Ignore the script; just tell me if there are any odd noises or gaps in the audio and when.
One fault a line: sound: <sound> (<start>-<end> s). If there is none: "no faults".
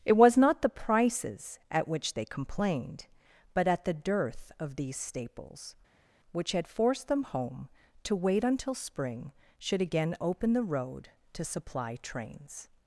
no faults